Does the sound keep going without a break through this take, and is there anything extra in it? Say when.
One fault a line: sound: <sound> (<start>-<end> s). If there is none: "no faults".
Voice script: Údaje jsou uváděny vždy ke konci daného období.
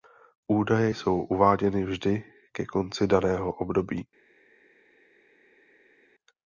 no faults